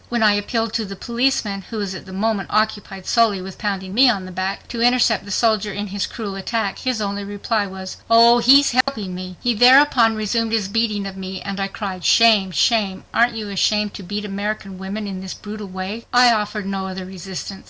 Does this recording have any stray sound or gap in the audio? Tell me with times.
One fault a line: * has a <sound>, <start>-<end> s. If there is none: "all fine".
* has a dropout, 8.8-8.9 s